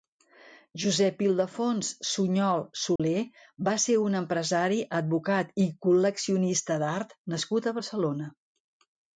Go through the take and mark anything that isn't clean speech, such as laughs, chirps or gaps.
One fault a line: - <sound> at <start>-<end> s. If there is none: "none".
- dropout at 3.0-3.0 s